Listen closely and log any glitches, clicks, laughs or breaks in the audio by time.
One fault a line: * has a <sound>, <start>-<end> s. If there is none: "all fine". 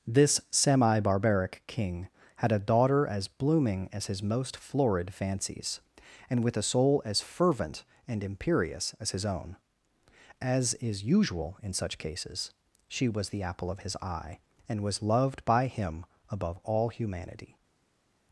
all fine